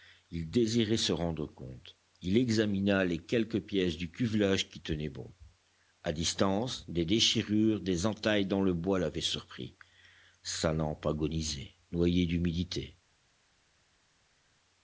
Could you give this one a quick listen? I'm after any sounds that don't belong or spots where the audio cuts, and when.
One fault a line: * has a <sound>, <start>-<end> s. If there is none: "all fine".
all fine